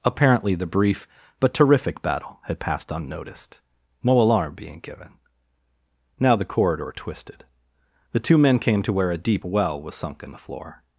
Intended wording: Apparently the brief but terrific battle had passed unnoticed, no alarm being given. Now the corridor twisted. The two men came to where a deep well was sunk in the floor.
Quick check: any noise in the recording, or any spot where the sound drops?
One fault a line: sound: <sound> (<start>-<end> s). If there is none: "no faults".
no faults